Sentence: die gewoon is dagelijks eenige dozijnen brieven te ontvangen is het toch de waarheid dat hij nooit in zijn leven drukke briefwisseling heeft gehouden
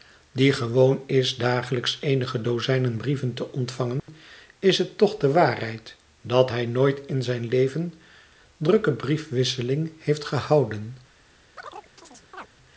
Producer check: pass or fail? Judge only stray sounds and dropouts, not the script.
fail